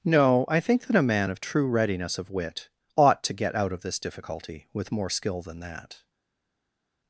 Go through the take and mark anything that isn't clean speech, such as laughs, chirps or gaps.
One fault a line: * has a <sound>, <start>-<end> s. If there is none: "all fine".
all fine